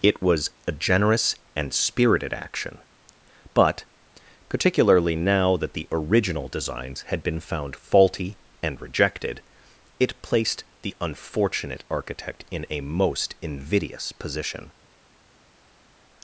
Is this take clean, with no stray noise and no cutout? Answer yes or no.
yes